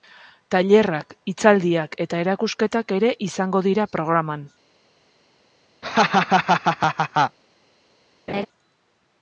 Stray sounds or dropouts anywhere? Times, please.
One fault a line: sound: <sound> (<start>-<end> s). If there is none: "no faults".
sound: laugh (5.8-7.4 s)
sound: laugh (8.3-8.5 s)